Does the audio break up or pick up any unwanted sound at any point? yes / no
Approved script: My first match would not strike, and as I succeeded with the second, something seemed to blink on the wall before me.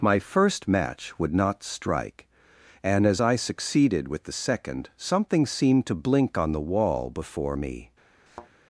yes